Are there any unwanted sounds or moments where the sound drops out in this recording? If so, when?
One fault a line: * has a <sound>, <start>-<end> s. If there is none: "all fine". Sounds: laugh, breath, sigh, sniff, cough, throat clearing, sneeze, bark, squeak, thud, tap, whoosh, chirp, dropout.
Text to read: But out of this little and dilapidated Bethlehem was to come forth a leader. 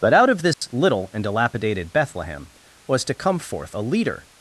* has a dropout, 0.5-0.6 s